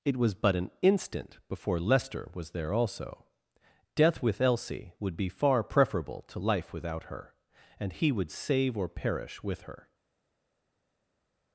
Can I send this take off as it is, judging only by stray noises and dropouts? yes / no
yes